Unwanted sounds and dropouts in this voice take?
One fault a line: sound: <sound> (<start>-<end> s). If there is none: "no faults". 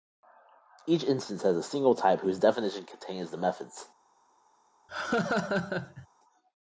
sound: laugh (4.9-6.1 s)